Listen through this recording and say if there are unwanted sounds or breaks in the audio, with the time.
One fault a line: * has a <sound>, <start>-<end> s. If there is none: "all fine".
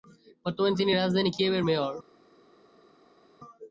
all fine